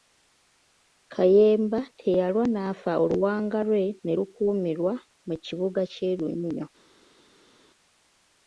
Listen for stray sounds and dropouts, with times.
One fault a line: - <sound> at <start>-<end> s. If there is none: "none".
none